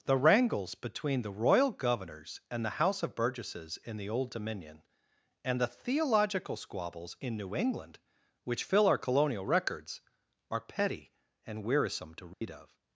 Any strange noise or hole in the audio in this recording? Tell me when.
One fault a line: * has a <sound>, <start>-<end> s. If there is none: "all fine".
* has a dropout, 12.3-12.4 s